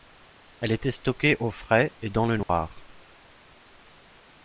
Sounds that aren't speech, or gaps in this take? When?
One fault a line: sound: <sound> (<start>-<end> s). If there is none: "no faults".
sound: dropout (2.4-2.5 s)